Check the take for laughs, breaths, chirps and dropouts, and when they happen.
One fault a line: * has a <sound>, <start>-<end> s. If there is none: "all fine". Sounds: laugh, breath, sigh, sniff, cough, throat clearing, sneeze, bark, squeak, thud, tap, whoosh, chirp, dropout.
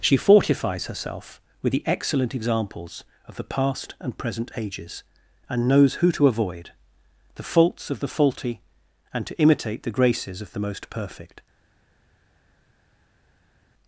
all fine